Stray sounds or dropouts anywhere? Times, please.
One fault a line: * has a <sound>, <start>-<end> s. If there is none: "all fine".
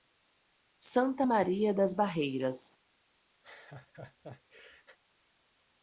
* has a laugh, 3.4-5.0 s